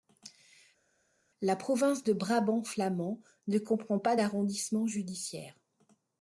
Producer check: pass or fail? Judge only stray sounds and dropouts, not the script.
pass